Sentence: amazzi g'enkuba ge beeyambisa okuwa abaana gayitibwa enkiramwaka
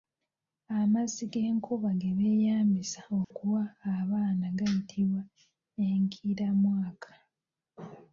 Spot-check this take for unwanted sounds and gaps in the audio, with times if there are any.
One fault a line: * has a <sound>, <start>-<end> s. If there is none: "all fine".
* has a dropout, 3.2-3.3 s